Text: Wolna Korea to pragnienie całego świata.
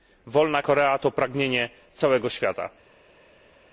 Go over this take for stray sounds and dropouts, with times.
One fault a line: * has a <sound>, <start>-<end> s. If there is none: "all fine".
all fine